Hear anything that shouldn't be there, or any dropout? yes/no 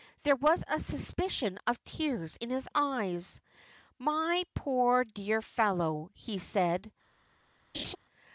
yes